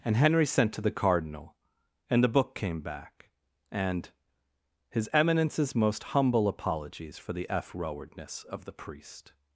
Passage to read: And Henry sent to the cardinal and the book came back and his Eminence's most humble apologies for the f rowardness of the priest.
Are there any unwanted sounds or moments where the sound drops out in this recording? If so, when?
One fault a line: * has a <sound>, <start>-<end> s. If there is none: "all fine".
all fine